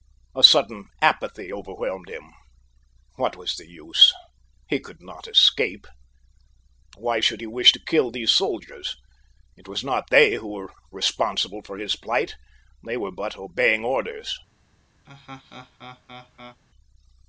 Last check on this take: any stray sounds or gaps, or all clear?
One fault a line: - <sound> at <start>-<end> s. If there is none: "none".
- laugh at 15.1-16.6 s